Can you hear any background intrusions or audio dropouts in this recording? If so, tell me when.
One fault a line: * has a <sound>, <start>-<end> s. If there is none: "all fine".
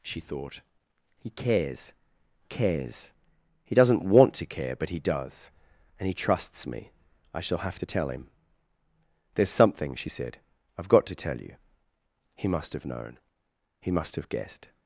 all fine